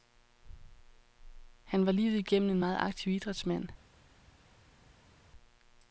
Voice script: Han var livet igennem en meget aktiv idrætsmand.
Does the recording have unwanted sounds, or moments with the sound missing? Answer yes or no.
no